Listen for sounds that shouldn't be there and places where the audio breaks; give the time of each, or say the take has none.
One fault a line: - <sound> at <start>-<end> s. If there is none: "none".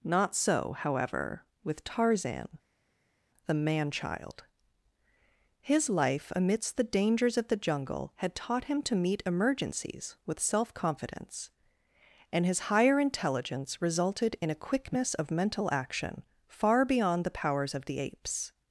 none